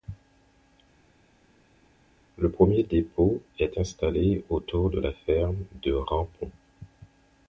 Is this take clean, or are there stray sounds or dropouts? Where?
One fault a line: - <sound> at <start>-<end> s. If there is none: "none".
none